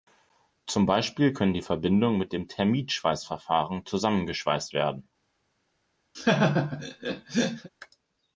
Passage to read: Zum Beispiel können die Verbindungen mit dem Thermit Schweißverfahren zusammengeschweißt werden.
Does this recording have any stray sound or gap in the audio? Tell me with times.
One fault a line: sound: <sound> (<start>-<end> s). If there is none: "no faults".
sound: laugh (6.1-7.7 s)